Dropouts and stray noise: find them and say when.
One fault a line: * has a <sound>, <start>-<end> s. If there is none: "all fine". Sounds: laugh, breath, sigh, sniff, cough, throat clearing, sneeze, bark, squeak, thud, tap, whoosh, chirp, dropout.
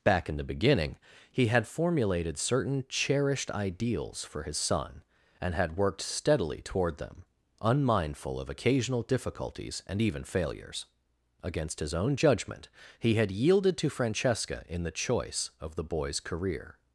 all fine